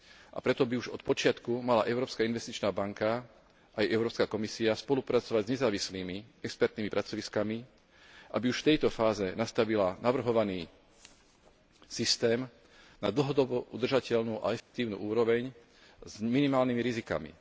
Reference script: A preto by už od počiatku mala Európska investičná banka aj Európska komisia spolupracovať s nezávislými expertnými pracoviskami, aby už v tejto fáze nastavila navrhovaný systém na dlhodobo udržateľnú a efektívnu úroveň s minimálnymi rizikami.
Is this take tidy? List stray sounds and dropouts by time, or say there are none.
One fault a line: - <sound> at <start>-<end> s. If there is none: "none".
- dropout at 14.6-14.7 s